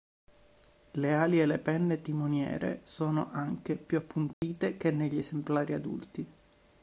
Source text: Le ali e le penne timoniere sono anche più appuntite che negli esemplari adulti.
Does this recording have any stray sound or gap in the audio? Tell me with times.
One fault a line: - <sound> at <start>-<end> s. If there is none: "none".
- dropout at 4.3-4.4 s